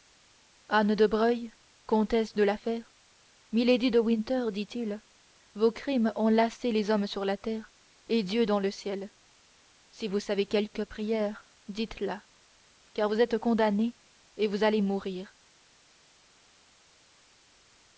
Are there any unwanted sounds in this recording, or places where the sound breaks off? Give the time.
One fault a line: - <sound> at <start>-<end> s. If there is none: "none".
none